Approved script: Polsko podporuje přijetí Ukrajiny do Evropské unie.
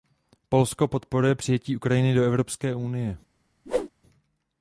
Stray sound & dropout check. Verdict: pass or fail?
fail